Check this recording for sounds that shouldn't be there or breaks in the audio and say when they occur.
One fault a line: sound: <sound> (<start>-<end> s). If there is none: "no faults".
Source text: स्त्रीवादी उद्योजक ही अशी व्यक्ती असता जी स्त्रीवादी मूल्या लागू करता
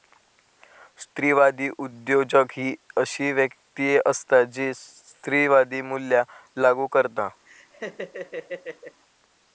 sound: laugh (7.5-9.0 s)